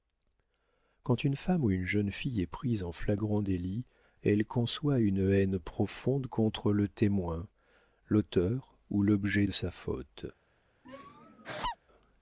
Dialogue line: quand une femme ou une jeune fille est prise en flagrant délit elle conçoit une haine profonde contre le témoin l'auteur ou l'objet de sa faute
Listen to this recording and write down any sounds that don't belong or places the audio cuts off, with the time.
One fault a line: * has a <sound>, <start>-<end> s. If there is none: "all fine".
* has a laugh, 10.8-11.8 s